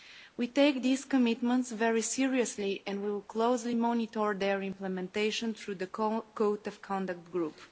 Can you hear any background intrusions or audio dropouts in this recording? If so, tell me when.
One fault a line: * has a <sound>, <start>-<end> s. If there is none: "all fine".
all fine